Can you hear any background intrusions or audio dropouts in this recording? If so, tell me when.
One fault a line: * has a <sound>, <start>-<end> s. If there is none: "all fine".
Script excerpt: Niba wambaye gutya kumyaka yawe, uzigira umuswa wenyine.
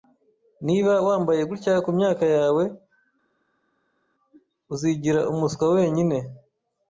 all fine